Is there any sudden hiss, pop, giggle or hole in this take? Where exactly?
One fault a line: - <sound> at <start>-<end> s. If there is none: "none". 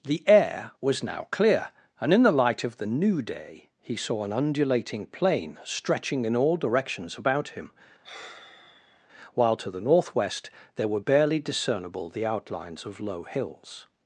- sigh at 8.0-9.1 s